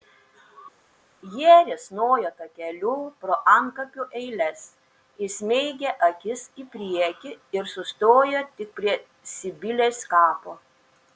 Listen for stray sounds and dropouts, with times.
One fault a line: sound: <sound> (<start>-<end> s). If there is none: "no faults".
no faults